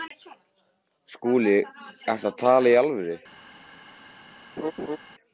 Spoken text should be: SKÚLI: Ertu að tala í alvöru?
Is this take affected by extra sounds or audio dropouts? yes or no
yes